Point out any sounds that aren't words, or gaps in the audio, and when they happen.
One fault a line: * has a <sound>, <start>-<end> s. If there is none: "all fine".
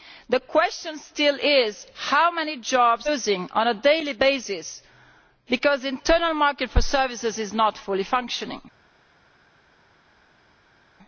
all fine